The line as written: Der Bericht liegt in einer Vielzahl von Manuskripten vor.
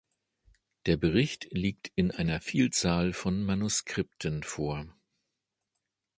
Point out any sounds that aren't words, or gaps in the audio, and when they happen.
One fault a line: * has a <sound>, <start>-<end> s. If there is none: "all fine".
all fine